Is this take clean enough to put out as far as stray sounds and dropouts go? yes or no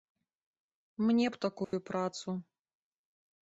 no